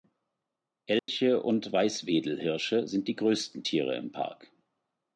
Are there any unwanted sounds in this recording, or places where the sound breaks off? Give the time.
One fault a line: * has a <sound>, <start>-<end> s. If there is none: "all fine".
* has a dropout, 1.0-1.1 s